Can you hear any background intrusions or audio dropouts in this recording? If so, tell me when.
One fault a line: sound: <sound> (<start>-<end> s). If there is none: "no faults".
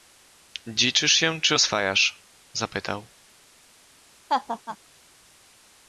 sound: laugh (4.3-4.8 s)